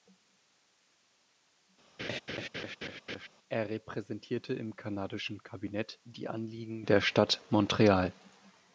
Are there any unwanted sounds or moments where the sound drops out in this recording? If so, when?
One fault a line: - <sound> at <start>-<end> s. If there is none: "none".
- laugh at 2.0-3.3 s